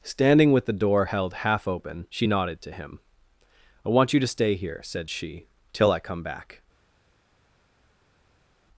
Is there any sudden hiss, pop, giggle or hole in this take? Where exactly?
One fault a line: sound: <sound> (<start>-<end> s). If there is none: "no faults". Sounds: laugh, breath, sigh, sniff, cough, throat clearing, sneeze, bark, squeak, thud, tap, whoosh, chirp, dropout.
no faults